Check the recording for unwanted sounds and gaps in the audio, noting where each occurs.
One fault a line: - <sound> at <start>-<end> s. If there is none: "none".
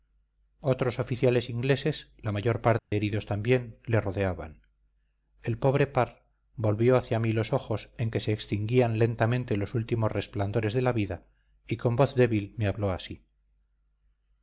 - dropout at 2.8-2.9 s